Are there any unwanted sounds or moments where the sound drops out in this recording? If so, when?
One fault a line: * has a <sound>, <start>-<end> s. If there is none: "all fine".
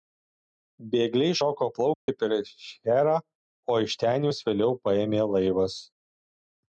* has a dropout, 1.9-2.1 s